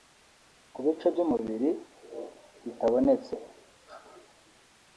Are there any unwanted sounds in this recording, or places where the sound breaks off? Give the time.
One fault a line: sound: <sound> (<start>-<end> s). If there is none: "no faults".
no faults